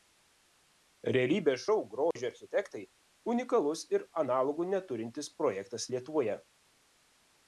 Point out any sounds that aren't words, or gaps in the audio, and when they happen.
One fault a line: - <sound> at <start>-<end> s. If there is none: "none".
- dropout at 2.1-2.2 s